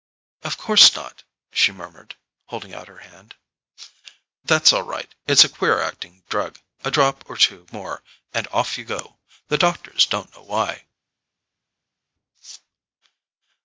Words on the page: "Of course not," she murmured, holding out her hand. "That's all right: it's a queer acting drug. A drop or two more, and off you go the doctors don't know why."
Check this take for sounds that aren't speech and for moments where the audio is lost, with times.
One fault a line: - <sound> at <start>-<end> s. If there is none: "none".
none